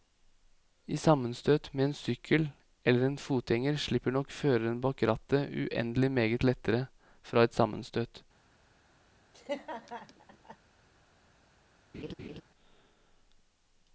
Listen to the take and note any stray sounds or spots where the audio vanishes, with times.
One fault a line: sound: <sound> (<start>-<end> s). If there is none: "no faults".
sound: laugh (9.3-10.6 s)
sound: laugh (11.9-12.4 s)